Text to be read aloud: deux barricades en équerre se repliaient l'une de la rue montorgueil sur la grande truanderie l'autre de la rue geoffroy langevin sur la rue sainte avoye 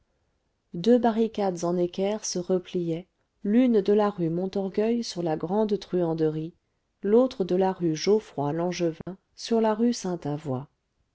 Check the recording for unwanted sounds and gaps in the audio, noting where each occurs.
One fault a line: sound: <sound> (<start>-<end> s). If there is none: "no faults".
sound: dropout (9.0-9.1 s)